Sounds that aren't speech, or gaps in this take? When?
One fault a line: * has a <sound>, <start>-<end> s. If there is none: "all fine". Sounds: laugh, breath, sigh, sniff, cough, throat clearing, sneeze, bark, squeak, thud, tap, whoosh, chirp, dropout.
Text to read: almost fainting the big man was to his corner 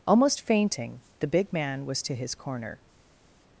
all fine